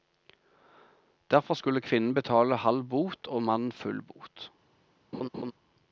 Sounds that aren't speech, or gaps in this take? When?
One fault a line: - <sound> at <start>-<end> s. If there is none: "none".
- laugh at 5.1-5.5 s